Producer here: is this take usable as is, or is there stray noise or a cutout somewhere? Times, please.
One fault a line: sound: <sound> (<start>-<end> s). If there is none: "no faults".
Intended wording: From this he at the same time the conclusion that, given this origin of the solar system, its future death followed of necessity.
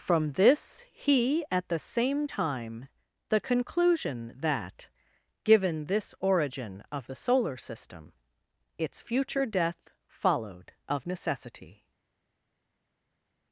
no faults